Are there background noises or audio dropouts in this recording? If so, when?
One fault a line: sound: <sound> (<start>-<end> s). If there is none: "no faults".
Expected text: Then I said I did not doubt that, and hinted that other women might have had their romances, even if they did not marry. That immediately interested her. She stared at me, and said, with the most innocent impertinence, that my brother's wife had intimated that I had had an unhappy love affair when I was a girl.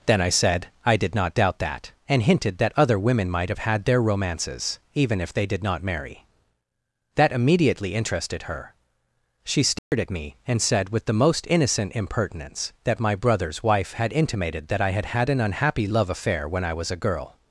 sound: dropout (9.8-9.9 s)